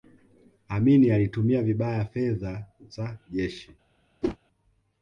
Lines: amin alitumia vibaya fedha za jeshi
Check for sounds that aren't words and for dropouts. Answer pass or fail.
fail